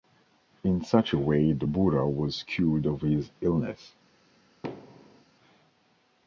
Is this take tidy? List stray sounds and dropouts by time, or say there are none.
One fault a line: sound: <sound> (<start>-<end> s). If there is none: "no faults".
sound: thud (4.6-5.2 s)